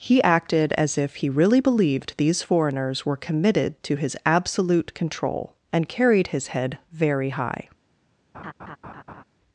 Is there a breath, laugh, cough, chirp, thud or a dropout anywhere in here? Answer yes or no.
yes